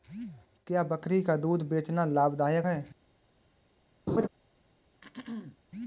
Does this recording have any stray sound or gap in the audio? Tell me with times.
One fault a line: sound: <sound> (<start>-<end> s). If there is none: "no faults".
sound: laugh (4.1-4.3 s)
sound: throat clearing (5.0-5.6 s)